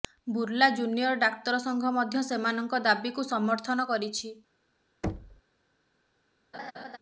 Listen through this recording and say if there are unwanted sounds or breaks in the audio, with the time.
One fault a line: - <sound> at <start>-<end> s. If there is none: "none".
- thud at 5.0-5.4 s
- laugh at 6.5-7.0 s